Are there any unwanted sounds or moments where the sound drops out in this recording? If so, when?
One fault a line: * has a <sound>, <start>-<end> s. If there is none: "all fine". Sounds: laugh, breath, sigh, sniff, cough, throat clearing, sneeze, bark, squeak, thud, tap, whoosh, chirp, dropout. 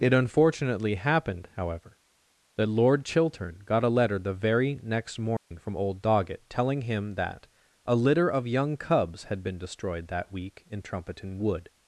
* has a dropout, 5.4-5.5 s